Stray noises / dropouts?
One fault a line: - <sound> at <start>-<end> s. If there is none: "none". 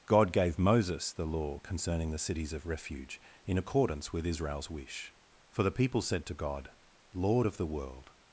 none